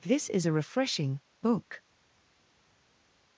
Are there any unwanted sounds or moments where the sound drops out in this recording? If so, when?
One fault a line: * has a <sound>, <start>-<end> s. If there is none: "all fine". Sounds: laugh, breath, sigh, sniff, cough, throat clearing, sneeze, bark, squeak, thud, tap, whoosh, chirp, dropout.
all fine